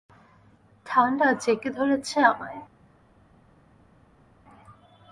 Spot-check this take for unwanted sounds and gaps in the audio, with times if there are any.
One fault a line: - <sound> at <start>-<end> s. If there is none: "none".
none